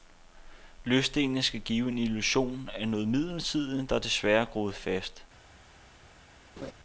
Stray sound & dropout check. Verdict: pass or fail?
fail